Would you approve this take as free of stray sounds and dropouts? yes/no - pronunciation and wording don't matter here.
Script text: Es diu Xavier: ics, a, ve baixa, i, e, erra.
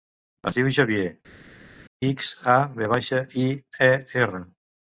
yes